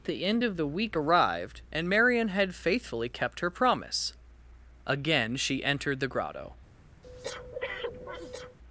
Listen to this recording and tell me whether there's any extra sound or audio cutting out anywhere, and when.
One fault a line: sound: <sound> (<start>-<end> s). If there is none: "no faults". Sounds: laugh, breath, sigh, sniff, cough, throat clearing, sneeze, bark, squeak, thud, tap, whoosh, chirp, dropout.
sound: breath (7.0-8.6 s)